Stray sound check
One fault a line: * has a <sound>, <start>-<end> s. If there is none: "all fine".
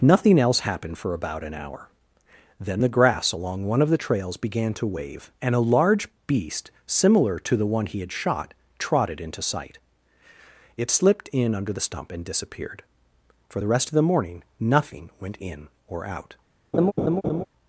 * has a laugh, 16.7-17.4 s